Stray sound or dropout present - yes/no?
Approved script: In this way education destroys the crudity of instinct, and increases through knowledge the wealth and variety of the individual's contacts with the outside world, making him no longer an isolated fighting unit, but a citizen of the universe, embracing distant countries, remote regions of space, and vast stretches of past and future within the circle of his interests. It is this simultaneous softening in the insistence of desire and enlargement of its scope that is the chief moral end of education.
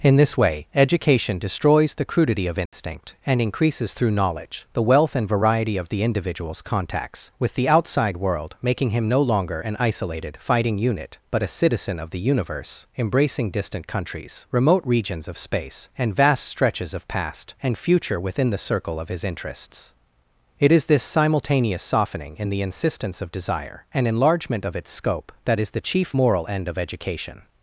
yes